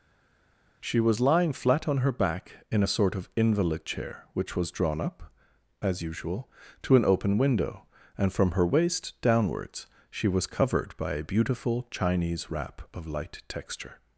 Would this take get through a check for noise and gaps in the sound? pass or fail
pass